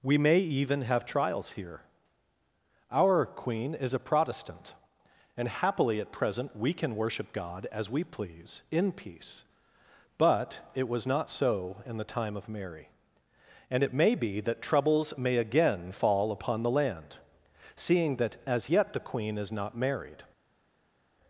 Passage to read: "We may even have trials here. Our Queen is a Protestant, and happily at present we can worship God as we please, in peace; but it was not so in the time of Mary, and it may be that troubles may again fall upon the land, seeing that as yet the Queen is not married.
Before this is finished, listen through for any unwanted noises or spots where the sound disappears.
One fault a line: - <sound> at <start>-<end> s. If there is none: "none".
none